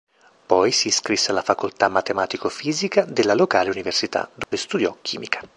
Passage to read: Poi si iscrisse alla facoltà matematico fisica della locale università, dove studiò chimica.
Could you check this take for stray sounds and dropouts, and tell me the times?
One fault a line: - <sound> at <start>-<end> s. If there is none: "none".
- dropout at 4.4-4.5 s